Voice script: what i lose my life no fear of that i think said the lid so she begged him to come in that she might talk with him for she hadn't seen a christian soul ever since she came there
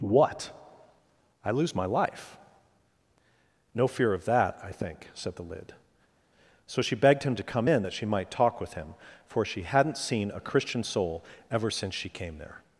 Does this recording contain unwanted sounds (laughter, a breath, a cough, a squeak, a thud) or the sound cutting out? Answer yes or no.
no